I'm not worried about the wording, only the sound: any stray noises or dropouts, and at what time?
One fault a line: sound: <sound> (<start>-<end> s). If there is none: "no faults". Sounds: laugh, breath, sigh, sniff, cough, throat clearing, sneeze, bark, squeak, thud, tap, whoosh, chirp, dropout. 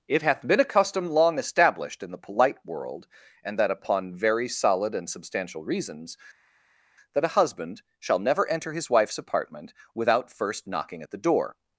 no faults